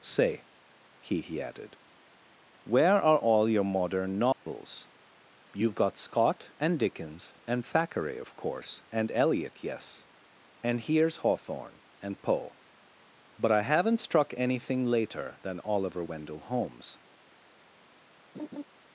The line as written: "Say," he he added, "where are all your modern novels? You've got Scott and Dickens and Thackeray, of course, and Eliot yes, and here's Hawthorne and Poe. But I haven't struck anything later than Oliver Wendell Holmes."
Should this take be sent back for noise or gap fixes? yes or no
yes